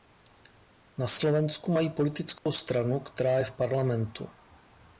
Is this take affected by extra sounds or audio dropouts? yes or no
yes